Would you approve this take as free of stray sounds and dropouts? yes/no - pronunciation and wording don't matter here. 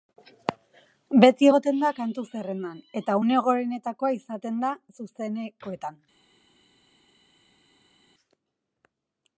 yes